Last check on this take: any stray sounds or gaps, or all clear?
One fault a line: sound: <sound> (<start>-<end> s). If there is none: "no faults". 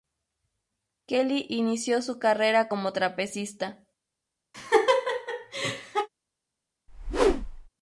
sound: laugh (4.5-6.1 s)
sound: whoosh (6.9-7.7 s)